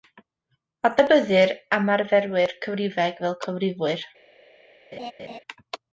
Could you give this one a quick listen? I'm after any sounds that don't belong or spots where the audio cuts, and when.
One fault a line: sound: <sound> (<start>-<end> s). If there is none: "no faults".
sound: laugh (4.9-5.4 s)